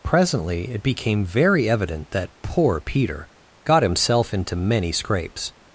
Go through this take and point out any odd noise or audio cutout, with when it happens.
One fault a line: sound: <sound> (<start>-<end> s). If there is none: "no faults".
no faults